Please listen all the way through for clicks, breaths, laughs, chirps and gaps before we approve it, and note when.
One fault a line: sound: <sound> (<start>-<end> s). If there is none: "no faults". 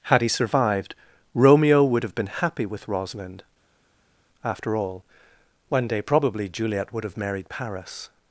no faults